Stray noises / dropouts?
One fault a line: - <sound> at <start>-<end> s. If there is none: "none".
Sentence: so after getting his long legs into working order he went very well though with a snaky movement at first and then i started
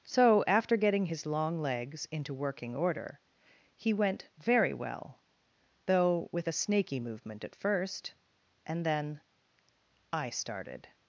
none